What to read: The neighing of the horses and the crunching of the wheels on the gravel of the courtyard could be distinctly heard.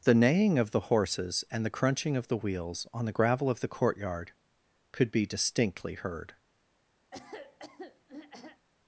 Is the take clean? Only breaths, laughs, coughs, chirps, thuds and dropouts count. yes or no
no